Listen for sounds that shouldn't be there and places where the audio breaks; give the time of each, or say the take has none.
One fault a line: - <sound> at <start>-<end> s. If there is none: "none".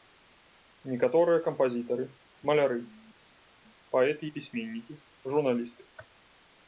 none